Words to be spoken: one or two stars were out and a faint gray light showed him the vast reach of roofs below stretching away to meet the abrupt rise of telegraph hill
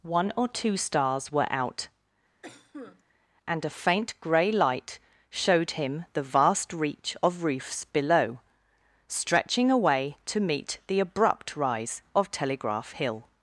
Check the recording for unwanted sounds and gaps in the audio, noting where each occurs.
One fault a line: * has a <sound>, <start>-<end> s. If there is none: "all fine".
* has a cough, 2.4-3.0 s